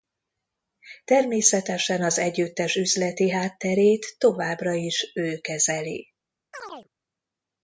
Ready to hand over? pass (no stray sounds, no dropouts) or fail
fail